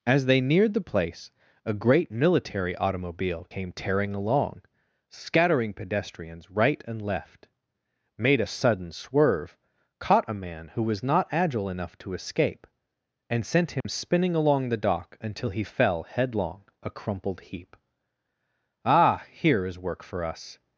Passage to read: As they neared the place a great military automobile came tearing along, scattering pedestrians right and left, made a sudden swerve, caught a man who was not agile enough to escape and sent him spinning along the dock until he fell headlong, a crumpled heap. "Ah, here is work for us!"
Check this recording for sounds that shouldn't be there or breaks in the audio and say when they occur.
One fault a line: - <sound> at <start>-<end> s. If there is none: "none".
- dropout at 13.8-13.8 s